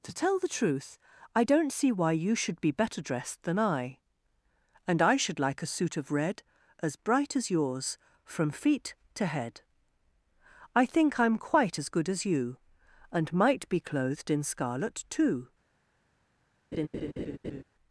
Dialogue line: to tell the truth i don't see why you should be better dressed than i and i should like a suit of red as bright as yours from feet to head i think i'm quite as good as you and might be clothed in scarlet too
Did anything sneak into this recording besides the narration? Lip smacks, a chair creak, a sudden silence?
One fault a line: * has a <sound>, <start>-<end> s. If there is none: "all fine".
* has a laugh, 16.7-17.6 s